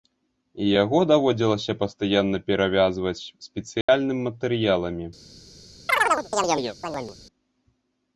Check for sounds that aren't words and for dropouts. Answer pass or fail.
fail